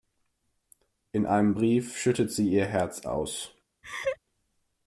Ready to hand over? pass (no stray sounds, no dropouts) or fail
fail